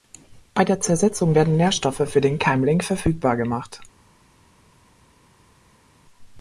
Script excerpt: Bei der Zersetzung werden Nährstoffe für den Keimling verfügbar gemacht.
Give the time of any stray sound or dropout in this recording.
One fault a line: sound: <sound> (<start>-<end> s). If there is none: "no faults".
no faults